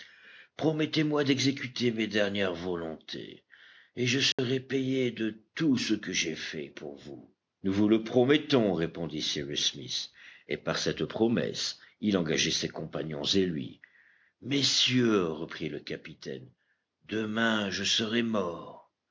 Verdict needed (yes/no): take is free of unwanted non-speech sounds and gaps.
no